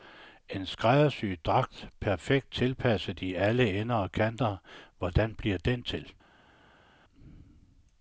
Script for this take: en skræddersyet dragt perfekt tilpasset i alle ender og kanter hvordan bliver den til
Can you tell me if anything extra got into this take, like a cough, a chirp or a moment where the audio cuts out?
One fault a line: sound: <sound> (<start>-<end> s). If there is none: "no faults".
no faults